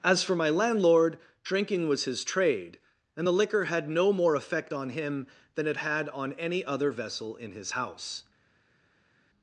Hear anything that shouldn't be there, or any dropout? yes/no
no